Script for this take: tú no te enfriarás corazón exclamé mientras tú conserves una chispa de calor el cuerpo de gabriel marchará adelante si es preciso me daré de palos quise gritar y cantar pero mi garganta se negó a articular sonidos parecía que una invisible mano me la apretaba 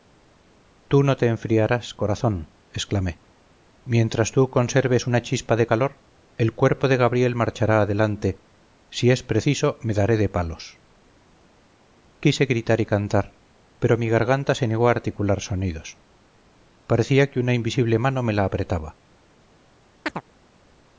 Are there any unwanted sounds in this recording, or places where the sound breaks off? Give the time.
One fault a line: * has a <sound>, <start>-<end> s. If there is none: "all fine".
* has a chirp, 20.1-20.2 s